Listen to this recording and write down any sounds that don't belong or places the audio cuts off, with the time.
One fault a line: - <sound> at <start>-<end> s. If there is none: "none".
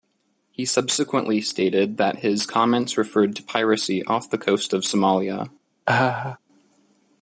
- laugh at 5.9-6.4 s